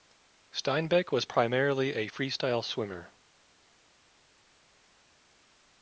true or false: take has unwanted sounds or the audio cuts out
false